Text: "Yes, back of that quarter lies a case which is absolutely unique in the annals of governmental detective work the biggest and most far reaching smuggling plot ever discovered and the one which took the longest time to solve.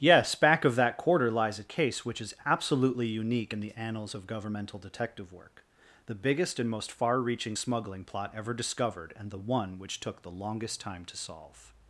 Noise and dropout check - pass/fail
pass